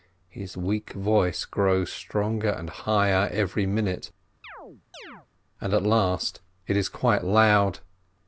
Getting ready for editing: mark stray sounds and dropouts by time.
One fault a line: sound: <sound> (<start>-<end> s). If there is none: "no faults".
sound: chirp (4.4-5.3 s)